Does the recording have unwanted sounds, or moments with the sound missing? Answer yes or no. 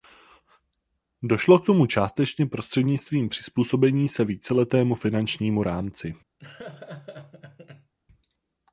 yes